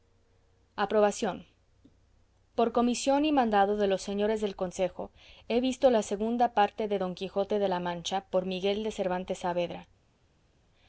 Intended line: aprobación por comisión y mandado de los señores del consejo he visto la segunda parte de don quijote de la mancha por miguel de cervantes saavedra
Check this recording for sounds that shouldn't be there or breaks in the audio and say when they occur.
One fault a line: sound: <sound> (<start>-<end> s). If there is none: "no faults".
no faults